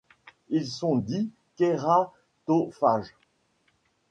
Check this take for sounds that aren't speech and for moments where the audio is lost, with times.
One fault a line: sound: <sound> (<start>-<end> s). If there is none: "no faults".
no faults